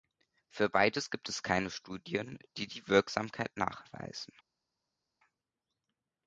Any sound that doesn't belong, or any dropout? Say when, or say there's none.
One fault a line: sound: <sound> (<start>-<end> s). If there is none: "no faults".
no faults